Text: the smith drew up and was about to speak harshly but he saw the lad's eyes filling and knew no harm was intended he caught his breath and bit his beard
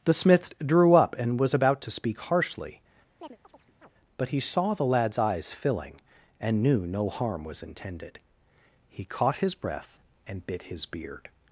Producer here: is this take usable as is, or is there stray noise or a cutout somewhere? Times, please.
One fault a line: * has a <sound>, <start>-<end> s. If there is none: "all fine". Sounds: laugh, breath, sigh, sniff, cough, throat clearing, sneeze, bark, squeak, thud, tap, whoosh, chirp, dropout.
* has a chirp, 3.2-3.9 s